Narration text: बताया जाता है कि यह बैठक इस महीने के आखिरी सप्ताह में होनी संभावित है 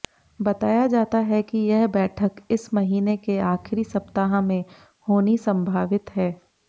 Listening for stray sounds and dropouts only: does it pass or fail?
pass